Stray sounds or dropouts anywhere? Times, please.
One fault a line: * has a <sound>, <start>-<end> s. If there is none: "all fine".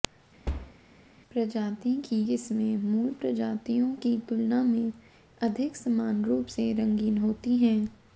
* has a thud, 0.5-0.8 s